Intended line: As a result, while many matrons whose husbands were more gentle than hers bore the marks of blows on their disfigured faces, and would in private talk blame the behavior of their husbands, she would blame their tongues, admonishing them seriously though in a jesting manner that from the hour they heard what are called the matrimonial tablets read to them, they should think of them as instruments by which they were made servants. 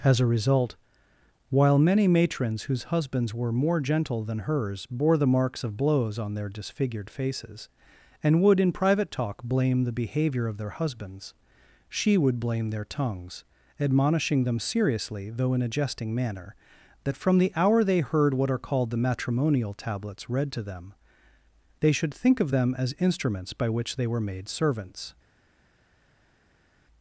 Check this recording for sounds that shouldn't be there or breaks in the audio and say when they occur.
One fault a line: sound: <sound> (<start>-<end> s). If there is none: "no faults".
no faults